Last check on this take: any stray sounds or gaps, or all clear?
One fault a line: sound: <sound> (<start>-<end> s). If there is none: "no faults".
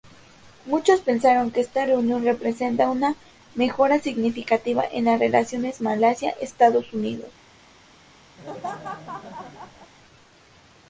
sound: laugh (8.4-9.9 s)